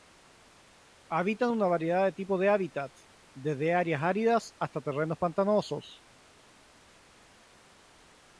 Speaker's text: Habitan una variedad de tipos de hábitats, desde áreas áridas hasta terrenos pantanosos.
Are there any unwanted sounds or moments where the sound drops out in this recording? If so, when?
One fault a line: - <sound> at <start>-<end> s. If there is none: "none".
none